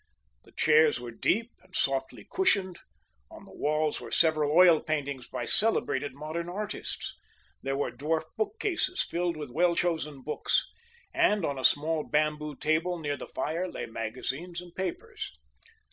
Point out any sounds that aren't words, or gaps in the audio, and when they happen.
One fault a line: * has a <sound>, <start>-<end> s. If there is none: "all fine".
all fine